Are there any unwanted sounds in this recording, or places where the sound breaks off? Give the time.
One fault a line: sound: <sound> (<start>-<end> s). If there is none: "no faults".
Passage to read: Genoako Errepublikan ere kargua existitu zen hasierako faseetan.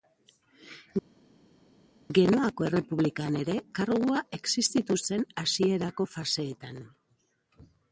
no faults